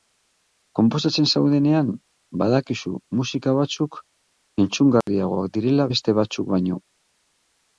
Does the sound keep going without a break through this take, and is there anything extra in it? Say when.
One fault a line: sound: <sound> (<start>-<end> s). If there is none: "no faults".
sound: dropout (5.0-5.1 s)